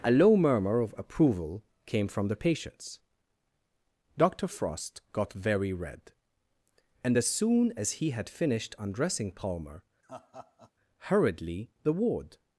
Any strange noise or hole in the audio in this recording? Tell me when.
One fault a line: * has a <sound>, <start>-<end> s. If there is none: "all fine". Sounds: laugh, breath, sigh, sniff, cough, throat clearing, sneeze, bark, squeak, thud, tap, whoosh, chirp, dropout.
* has a laugh, 10.0-10.7 s